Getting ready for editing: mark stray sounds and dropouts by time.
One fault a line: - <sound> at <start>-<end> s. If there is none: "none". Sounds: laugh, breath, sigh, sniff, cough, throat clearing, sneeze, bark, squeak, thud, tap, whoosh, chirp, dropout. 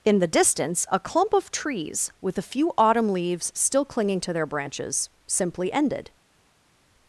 none